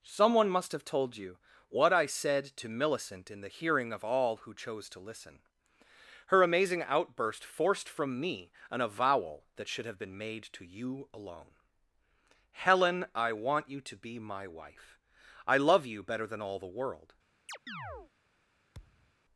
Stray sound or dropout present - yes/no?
yes